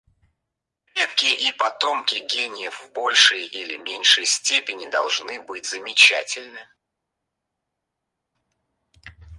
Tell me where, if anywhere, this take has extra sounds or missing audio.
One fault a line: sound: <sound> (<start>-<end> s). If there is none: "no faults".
no faults